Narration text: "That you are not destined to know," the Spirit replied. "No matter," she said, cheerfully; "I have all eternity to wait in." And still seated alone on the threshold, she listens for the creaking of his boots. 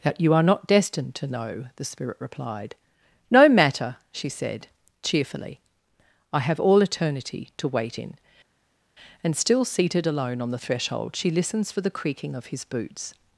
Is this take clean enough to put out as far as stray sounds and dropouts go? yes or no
yes